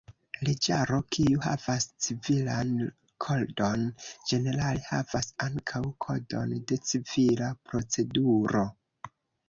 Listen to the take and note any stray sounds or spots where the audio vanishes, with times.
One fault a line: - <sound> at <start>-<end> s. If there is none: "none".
none